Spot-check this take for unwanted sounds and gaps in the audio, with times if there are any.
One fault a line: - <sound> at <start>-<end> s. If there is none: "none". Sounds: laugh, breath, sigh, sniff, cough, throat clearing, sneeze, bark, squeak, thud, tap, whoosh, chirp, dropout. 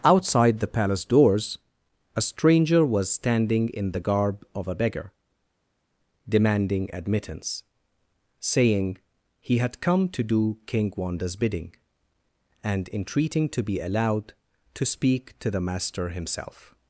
none